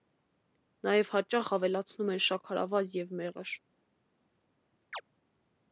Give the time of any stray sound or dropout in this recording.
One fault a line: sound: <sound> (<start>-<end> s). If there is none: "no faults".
sound: chirp (4.9-5.0 s)